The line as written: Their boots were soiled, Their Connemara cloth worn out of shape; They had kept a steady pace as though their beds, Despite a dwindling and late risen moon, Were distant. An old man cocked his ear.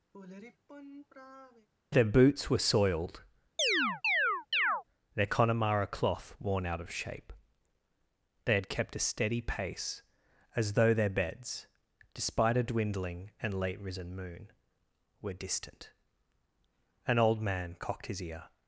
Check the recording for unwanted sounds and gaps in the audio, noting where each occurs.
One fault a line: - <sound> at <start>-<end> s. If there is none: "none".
- sigh at 0.1-1.7 s
- chirp at 3.6-4.8 s